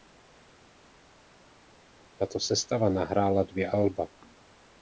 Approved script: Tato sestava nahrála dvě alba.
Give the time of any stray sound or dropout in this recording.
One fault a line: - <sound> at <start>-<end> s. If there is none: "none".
none